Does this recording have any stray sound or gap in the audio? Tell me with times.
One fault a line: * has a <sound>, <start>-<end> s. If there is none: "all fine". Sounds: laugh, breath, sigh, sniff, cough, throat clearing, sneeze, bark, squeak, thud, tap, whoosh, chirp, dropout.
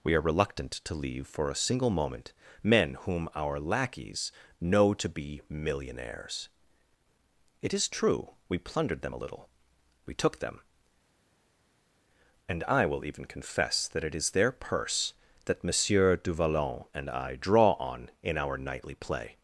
all fine